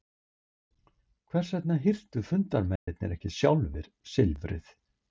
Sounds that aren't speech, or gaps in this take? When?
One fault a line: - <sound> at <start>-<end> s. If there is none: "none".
- dropout at 2.8-2.9 s